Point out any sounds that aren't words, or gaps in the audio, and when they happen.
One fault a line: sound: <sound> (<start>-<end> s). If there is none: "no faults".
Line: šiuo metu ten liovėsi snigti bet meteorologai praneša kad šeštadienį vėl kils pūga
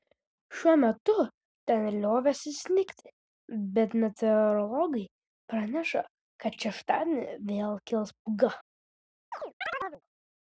sound: chirp (9.3-10.0 s)